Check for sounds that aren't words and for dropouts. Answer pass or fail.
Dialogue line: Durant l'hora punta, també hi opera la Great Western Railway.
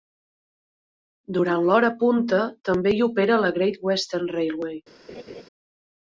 fail